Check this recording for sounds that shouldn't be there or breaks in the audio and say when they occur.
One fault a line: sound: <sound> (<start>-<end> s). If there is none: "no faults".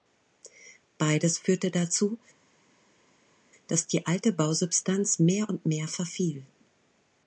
no faults